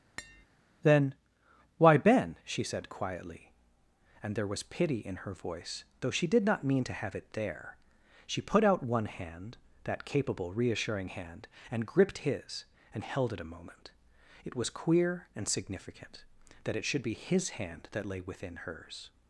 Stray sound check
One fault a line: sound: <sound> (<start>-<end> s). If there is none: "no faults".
sound: tap (0.2-0.5 s)